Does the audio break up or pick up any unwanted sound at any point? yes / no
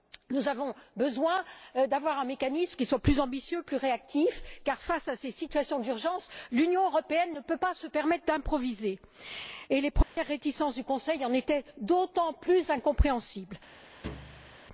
yes